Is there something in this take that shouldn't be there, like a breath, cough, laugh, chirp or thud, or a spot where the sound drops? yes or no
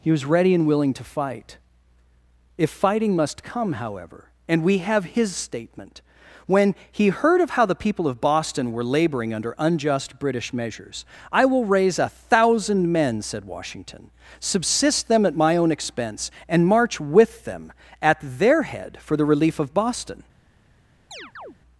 yes